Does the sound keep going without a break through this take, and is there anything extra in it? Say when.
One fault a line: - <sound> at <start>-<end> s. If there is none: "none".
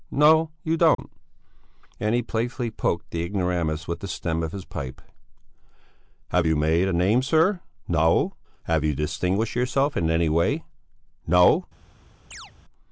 - dropout at 0.9-1.0 s
- chirp at 12.3-12.5 s